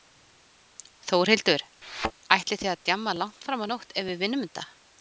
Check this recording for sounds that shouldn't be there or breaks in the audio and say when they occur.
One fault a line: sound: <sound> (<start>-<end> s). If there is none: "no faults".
sound: thud (1.8-2.1 s)